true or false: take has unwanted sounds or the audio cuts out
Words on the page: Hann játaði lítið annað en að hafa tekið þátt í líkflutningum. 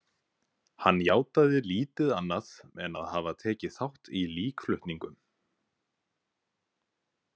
false